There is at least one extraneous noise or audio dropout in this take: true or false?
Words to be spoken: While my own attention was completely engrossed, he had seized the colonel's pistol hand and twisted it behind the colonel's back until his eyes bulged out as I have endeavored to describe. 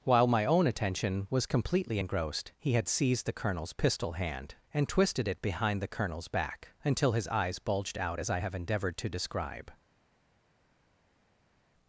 false